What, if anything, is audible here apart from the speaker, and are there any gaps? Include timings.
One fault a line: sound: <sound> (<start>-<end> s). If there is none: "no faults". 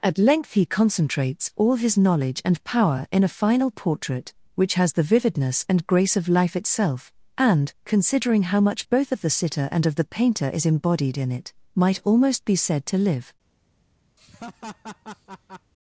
sound: laugh (14.2-15.7 s)